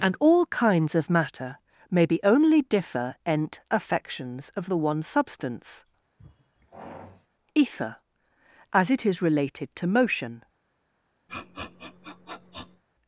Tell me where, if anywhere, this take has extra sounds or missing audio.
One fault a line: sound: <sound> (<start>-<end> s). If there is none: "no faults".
sound: sigh (6.2-7.3 s)
sound: sniff (11.3-12.8 s)